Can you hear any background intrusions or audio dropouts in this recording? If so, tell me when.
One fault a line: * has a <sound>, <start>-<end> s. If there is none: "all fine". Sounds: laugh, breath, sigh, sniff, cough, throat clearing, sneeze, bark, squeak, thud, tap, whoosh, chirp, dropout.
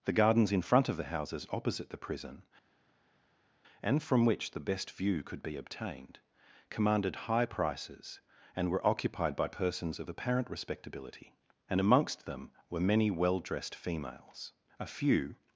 all fine